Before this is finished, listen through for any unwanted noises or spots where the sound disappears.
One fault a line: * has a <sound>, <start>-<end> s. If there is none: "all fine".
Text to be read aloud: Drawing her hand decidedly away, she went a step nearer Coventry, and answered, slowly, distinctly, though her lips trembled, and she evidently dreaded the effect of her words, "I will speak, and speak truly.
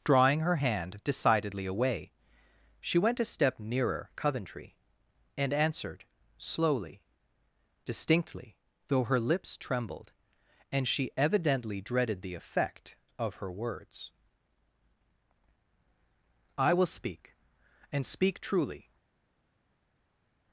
all fine